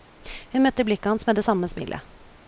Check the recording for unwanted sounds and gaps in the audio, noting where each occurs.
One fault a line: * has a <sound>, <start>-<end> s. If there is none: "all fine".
all fine